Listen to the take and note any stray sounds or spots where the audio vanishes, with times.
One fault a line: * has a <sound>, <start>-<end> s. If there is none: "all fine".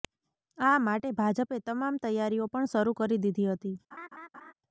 * has a laugh, 3.9-4.5 s